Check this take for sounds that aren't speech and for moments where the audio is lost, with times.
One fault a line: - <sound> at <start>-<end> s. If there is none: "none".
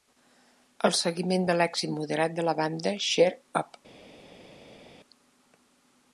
none